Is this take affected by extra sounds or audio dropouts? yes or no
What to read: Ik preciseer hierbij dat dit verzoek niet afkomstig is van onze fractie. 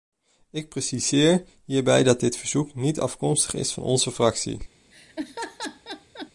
yes